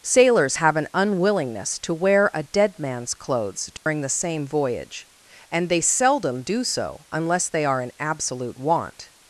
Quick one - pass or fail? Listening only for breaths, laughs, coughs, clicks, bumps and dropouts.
fail